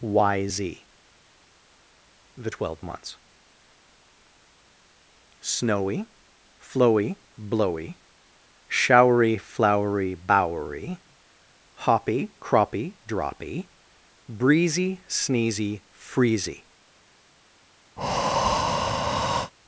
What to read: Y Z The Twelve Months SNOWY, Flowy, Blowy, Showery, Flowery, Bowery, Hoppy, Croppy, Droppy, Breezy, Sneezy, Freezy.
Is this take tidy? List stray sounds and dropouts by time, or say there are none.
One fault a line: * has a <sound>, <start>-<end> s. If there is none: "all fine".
* has a breath, 18.0-19.5 s